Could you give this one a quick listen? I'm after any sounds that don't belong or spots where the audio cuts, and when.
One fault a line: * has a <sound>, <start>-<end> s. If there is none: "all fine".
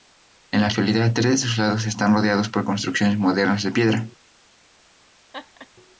* has a laugh, 5.3-5.7 s